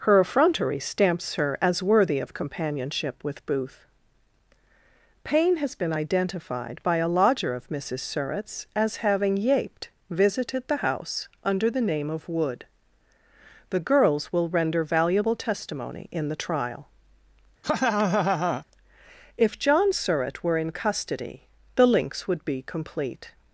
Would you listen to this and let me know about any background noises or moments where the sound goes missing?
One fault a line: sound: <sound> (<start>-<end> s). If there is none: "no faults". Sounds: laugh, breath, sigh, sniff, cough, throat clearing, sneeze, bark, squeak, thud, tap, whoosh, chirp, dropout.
sound: laugh (17.6-18.6 s)